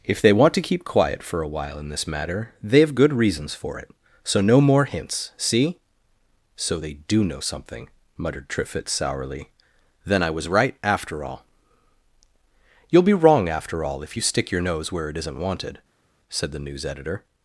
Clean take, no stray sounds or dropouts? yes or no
yes